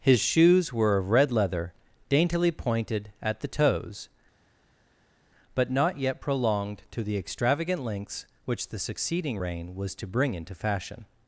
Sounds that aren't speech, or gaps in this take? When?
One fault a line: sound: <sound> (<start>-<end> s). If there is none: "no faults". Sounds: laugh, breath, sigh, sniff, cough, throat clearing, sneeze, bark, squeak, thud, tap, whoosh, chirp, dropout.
no faults